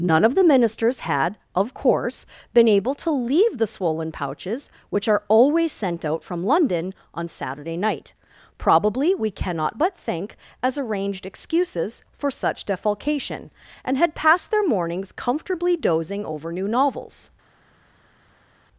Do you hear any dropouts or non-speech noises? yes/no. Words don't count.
no